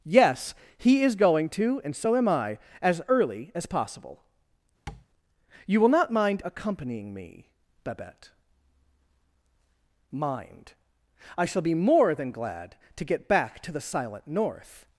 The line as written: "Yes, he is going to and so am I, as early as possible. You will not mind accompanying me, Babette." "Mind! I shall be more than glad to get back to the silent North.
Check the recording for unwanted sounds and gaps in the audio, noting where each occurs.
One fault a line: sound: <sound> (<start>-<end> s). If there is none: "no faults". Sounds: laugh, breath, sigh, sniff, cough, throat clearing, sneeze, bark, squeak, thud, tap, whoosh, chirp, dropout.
sound: tap (4.9-5.1 s)